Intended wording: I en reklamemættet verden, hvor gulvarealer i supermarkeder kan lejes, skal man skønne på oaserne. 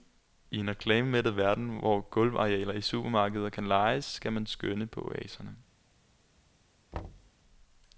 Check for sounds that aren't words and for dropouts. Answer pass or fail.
fail